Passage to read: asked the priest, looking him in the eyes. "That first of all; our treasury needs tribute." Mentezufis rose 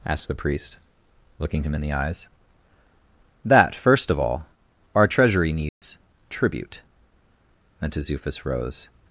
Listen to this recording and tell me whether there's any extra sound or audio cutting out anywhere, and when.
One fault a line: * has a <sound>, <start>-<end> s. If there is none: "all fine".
* has a dropout, 5.7-5.8 s